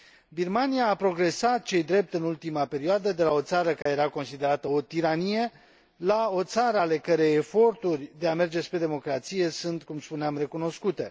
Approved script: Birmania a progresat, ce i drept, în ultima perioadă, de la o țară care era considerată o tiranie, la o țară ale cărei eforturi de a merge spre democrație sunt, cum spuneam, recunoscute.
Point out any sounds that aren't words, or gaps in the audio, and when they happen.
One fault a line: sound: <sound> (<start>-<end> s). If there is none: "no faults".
sound: dropout (3.8-3.9 s)